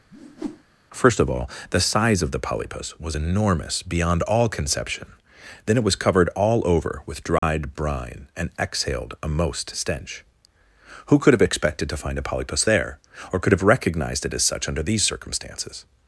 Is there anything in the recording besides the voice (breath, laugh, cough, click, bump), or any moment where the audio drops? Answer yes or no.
yes